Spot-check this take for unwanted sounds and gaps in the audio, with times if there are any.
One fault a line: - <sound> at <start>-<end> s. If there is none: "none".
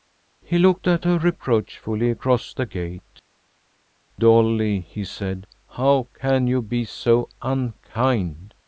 none